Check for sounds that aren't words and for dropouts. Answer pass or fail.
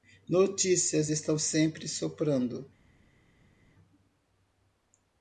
pass